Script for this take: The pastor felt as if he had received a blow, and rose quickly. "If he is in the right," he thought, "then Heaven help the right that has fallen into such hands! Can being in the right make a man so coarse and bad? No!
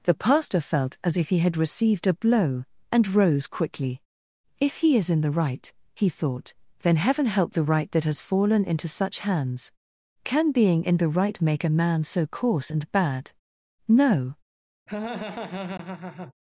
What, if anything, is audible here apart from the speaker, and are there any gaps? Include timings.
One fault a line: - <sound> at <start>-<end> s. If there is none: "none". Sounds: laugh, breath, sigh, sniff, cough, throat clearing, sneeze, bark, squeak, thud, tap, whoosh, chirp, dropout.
- laugh at 14.9-16.3 s